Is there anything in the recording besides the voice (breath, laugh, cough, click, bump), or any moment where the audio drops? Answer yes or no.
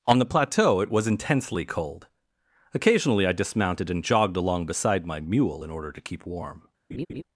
yes